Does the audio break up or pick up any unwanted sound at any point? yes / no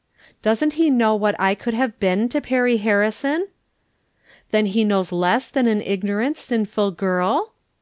no